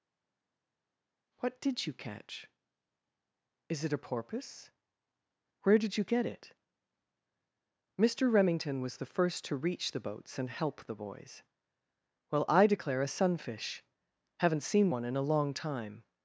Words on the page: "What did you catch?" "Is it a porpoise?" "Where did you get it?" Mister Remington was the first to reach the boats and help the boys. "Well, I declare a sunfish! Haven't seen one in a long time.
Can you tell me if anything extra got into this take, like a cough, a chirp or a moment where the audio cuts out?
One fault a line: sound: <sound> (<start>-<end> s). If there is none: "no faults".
no faults